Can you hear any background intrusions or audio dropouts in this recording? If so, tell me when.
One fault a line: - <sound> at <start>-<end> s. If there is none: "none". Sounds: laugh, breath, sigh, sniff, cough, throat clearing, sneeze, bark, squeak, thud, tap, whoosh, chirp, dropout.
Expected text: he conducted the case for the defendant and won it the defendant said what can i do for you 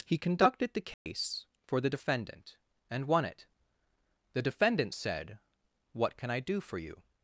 - dropout at 0.9-1.1 s